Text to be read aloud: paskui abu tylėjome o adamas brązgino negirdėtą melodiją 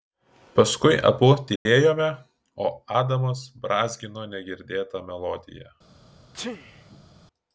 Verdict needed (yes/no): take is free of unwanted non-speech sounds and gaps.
no